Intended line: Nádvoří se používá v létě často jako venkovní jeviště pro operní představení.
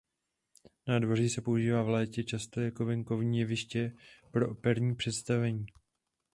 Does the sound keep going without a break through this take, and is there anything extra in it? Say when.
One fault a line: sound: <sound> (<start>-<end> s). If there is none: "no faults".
no faults